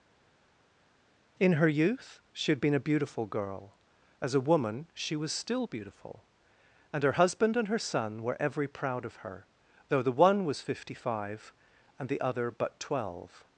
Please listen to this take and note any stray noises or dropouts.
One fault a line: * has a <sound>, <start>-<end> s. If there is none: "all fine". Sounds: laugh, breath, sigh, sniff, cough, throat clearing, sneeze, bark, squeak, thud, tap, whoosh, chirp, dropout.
all fine